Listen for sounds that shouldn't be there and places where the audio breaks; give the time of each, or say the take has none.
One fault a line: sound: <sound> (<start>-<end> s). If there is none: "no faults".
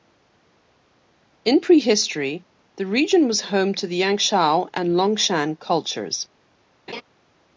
sound: laugh (6.9-7.0 s)